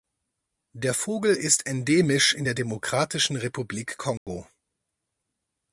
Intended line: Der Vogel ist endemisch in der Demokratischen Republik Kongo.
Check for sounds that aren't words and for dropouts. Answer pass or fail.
fail